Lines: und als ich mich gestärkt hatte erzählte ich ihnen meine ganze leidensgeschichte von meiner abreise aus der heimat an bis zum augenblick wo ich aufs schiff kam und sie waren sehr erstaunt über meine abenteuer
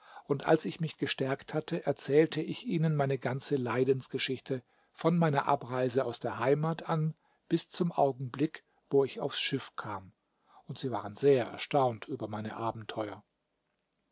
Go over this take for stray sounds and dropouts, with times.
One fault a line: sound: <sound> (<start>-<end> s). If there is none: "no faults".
no faults